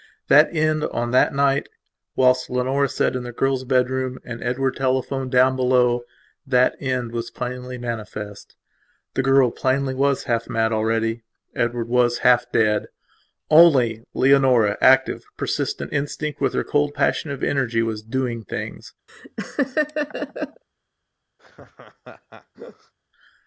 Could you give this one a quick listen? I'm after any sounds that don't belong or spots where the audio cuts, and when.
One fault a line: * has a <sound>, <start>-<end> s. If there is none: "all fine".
* has a laugh, 19.1-20.6 s
* has a laugh, 21.4-22.9 s